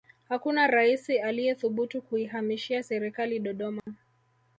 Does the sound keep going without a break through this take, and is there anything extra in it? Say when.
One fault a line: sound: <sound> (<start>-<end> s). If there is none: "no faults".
sound: dropout (3.8-3.9 s)